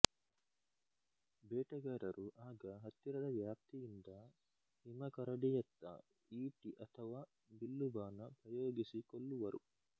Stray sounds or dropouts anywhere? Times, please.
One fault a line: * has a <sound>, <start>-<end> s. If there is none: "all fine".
all fine